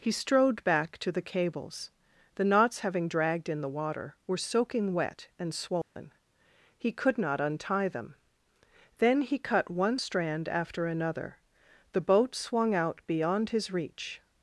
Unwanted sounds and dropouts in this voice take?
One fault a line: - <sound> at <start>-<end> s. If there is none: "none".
- dropout at 5.8-6.0 s